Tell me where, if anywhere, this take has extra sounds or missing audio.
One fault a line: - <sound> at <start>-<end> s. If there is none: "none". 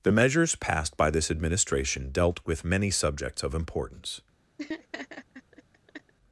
- laugh at 4.6-6.1 s